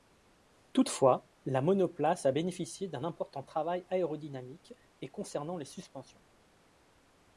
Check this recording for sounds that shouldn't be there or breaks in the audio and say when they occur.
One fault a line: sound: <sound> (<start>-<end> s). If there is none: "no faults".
no faults